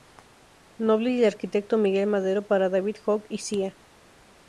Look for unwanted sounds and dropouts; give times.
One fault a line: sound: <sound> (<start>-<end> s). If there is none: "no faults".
no faults